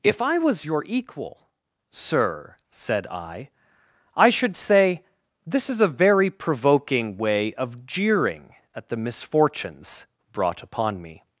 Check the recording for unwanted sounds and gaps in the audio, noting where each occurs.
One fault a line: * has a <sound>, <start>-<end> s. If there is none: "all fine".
all fine